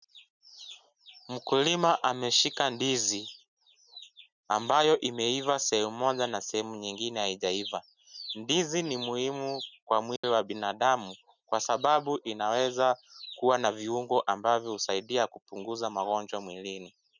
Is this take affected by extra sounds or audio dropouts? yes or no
yes